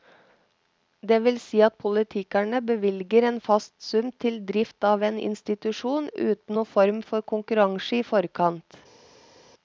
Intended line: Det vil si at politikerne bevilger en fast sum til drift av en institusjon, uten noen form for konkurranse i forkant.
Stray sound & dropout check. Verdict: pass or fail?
pass